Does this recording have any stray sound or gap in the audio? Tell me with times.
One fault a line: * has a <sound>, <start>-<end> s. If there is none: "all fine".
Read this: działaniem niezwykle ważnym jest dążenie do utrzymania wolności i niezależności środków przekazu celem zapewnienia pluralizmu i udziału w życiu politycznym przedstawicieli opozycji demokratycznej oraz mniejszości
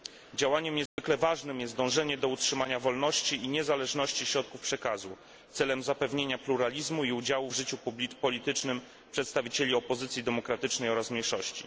* has a dropout, 0.9-1.0 s